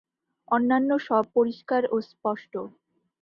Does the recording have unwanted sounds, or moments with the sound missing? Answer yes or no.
no